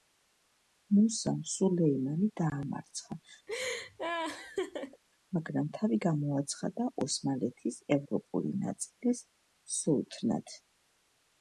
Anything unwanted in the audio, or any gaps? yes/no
yes